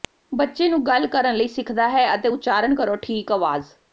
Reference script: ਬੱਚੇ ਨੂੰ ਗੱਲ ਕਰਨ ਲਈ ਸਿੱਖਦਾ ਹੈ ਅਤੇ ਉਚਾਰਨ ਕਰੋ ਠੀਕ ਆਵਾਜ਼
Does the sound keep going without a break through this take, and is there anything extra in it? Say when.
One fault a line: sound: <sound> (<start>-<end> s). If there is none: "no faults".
no faults